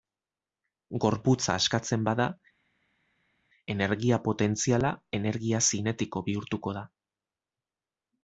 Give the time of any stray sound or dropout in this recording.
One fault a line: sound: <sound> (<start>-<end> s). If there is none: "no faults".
no faults